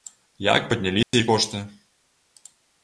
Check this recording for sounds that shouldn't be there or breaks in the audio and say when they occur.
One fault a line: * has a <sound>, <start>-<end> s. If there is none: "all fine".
* has a dropout, 1.0-1.1 s